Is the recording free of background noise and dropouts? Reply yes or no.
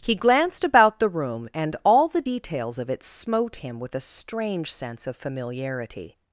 yes